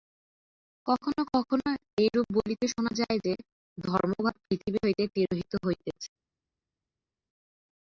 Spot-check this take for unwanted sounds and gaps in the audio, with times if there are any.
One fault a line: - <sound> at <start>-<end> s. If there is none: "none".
none